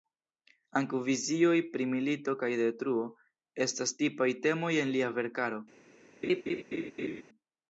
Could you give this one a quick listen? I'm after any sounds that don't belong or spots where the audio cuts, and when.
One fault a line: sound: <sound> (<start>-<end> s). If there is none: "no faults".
sound: laugh (6.2-7.2 s)